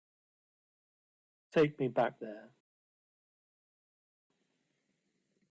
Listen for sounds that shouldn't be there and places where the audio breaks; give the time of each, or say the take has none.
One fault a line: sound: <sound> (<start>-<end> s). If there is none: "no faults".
no faults